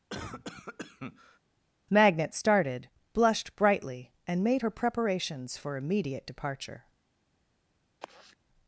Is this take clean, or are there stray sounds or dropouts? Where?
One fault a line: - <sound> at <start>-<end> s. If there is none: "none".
- cough at 0.1-1.4 s
- sigh at 8.0-8.4 s